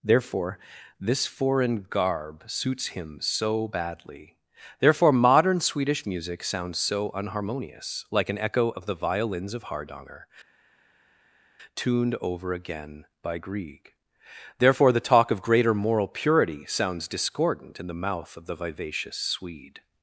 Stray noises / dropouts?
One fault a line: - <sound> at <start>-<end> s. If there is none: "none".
none